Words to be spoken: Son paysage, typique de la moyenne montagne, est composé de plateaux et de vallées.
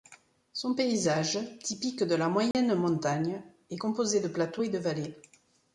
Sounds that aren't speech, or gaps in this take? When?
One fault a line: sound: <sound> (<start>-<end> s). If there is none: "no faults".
sound: dropout (2.5-2.5 s)